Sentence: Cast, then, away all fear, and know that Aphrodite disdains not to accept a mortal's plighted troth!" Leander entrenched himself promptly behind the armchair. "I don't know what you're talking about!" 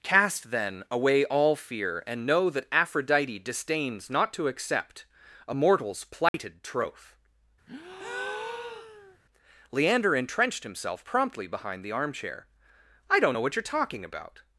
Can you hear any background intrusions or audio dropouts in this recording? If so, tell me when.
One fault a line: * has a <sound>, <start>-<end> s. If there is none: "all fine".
* has a dropout, 6.3-6.3 s
* has a breath, 7.7-9.2 s